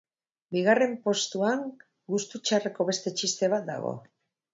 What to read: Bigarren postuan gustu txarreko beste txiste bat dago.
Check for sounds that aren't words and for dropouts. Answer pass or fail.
pass